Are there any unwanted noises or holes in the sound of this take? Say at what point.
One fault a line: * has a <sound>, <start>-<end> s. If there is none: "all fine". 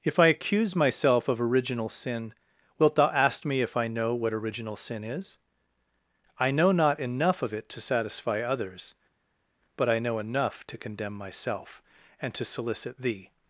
all fine